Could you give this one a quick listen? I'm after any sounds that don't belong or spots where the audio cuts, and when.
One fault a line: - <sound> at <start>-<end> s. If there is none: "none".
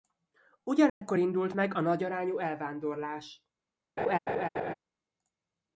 - dropout at 0.9-1.0 s
- laugh at 4.0-4.7 s